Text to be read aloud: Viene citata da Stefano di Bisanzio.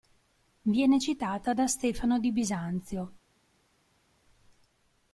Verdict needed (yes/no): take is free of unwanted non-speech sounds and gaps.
yes